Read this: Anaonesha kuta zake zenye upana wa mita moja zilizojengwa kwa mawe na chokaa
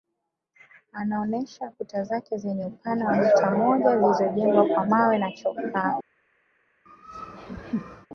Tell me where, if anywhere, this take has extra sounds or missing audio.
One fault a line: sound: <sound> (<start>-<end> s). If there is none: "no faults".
sound: laugh (6.9-8.1 s)